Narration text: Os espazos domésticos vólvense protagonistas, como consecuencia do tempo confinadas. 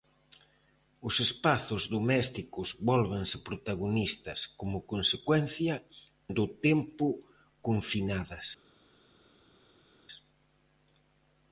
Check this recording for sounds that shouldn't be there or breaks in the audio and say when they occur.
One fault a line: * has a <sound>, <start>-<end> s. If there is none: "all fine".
all fine